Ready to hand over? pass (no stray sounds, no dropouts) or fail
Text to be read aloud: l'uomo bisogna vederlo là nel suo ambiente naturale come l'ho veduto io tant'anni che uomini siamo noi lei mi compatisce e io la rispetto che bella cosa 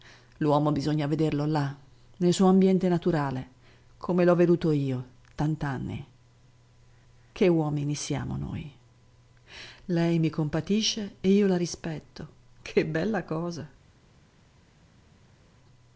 pass